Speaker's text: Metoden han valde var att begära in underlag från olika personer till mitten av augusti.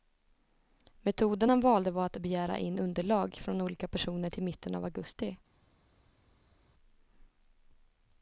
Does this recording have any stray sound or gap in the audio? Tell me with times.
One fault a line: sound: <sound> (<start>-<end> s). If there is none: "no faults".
no faults